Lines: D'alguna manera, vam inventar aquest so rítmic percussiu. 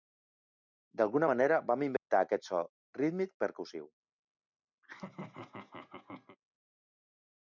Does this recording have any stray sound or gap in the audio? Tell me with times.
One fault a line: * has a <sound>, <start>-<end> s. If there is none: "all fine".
* has a dropout, 2.0-2.1 s
* has a laugh, 4.8-6.4 s